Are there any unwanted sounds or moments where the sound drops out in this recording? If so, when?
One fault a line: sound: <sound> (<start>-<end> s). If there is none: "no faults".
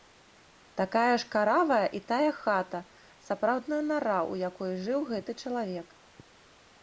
no faults